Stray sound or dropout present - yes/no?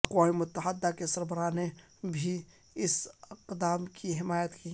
no